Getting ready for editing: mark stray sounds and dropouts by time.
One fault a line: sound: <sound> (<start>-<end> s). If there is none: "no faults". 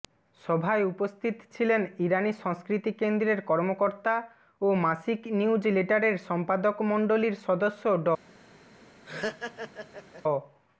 sound: laugh (9.0-10.2 s)